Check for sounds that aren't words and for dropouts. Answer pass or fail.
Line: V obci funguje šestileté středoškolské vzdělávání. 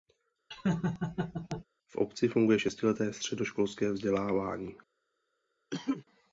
fail